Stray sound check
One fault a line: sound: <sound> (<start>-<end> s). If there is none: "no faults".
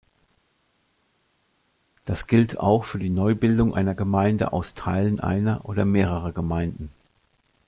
no faults